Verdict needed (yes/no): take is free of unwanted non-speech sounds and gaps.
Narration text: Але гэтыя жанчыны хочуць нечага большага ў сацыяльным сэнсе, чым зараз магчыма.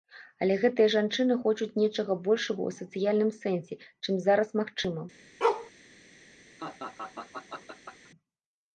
no